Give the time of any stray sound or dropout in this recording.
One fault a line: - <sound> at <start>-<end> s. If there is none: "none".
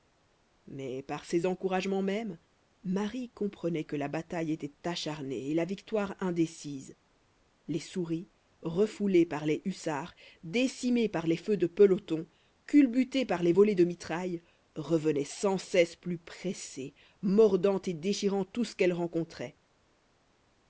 none